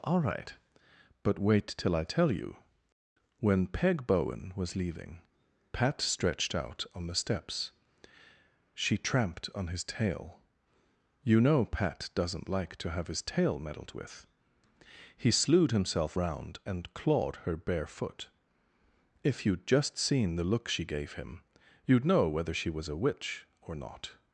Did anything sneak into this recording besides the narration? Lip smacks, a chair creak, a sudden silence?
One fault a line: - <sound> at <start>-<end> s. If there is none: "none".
none